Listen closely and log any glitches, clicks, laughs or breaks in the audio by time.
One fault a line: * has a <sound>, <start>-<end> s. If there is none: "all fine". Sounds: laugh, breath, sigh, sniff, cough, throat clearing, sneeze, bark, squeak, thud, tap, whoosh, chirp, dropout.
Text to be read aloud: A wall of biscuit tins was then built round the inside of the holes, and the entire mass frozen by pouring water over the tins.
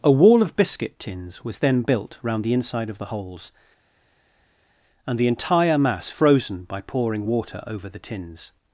all fine